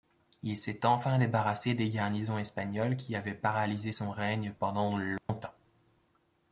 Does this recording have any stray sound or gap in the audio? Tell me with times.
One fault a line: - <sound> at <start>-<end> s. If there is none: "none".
- dropout at 5.2-5.3 s